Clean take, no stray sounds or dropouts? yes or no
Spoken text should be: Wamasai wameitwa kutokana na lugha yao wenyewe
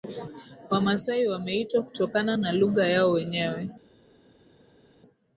yes